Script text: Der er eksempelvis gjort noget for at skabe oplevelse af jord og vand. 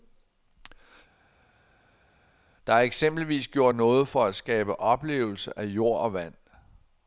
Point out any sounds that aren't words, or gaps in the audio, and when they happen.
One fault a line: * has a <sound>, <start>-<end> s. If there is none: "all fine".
all fine